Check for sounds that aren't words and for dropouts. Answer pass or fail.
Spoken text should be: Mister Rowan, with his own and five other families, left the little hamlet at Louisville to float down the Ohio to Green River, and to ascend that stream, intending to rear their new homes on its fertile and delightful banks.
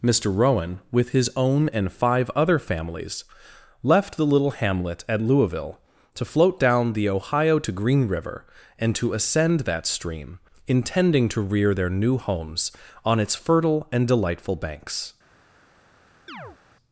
fail